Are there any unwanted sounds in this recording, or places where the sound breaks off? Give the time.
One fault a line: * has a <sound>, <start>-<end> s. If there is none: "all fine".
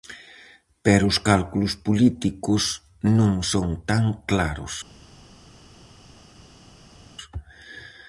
all fine